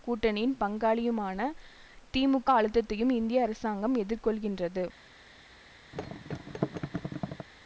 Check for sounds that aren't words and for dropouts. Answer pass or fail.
fail